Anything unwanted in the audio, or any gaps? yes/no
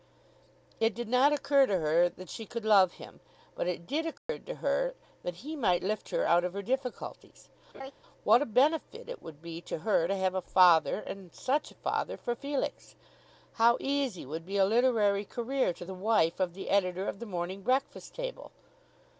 yes